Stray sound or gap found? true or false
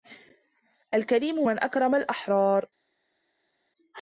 false